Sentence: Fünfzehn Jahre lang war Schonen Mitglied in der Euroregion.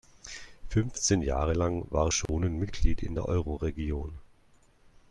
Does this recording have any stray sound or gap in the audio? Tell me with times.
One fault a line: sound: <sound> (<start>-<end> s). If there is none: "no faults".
sound: dropout (2.3-2.3 s)